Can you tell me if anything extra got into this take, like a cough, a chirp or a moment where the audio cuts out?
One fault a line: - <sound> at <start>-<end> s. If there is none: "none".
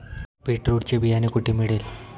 none